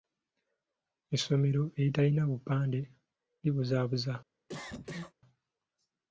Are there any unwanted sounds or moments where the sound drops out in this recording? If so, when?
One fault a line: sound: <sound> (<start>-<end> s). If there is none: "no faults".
sound: cough (4.5-5.1 s)